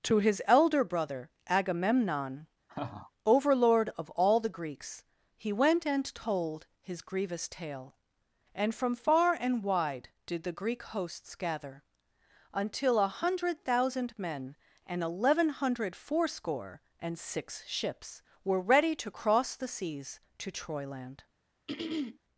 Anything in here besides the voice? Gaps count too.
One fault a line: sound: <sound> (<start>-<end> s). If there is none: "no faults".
sound: laugh (2.7-3.1 s)
sound: throat clearing (21.7-22.2 s)